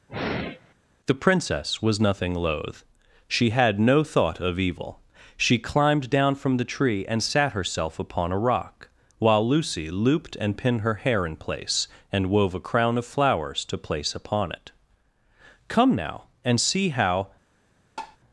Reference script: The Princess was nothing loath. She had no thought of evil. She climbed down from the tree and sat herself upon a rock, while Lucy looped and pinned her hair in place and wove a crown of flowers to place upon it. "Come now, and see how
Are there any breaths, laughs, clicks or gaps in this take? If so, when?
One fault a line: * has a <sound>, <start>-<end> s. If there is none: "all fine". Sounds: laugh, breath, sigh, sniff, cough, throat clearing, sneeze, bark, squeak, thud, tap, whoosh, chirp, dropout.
* has a sigh, 0.1-0.7 s
* has a tap, 18.0-18.2 s